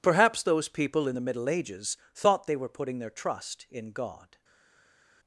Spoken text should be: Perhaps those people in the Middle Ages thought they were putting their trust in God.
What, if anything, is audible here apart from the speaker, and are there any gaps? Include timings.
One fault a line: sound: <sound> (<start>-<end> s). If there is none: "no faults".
no faults